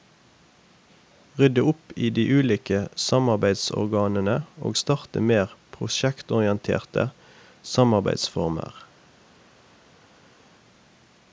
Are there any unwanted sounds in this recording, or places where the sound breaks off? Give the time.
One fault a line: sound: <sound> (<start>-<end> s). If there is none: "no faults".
no faults